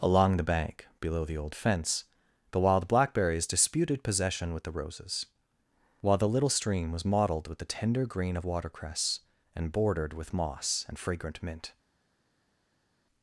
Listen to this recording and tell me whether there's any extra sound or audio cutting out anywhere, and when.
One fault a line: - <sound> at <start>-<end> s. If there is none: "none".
none